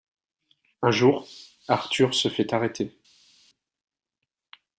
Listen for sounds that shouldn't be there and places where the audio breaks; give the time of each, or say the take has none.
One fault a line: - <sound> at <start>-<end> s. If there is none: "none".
none